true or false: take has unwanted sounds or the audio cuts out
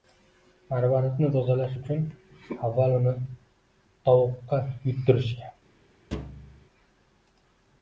true